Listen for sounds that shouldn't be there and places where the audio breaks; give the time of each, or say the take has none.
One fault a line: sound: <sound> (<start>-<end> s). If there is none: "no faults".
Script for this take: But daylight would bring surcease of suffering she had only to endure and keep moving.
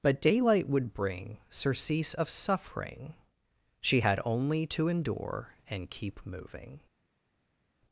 no faults